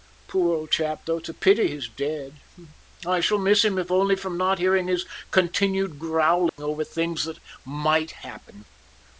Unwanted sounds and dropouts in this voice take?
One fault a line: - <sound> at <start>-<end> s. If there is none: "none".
- dropout at 6.5-6.6 s